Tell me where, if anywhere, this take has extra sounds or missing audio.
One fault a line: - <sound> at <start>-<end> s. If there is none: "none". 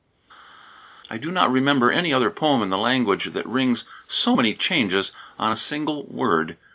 none